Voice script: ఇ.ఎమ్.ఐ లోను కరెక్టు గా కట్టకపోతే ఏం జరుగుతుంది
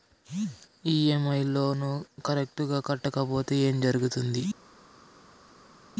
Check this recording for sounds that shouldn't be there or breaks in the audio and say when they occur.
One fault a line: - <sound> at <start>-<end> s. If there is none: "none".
none